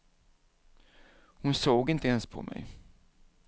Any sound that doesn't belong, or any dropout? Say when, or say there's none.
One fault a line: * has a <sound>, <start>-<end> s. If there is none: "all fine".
all fine